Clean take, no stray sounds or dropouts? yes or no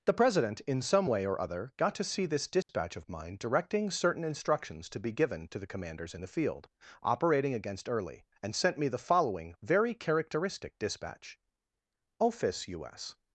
no